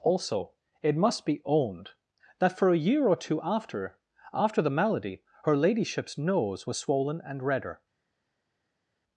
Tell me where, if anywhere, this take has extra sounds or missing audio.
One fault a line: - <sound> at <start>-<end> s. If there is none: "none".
none